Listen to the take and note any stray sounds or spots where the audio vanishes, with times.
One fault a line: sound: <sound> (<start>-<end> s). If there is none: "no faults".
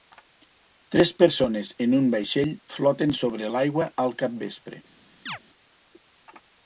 sound: chirp (5.3-5.4 s)